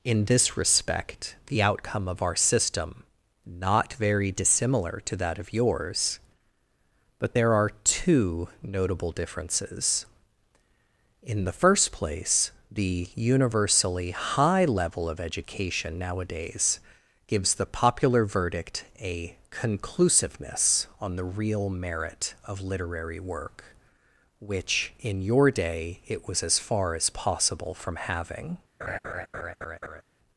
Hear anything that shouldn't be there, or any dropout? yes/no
yes